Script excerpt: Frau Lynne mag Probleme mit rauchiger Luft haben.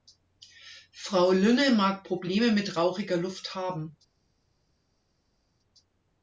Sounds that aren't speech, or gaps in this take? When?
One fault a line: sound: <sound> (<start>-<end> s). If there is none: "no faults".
no faults